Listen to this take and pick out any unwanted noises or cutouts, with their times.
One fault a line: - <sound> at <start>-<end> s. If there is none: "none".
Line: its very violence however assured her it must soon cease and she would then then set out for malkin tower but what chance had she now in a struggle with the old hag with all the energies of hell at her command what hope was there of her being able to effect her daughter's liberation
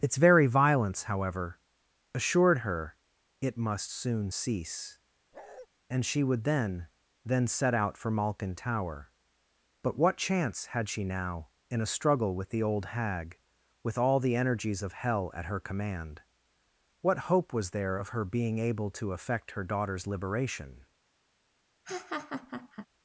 - bark at 5.3-5.7 s
- laugh at 21.8-22.9 s